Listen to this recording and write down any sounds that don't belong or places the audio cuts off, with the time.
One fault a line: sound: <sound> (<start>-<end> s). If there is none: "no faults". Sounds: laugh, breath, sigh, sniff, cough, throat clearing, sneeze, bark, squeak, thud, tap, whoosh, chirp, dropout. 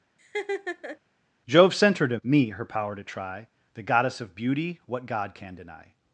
sound: laugh (0.2-1.0 s)